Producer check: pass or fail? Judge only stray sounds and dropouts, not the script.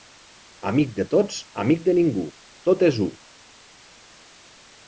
pass